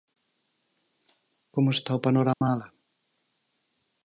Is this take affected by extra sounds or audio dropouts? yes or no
yes